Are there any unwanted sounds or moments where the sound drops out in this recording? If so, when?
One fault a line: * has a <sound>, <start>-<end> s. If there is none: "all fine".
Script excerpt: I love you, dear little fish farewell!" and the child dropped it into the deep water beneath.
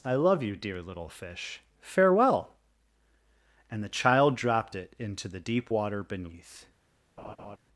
* has a laugh, 7.2-7.6 s